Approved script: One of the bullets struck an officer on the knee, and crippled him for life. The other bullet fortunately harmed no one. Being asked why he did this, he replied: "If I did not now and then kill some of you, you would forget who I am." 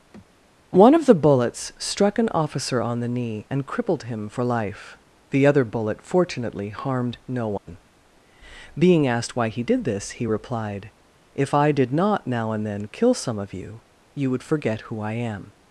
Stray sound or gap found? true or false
true